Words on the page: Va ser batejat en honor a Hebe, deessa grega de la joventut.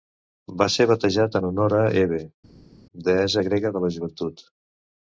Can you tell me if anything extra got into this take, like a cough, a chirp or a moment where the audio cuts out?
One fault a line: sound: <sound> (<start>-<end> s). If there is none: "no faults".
no faults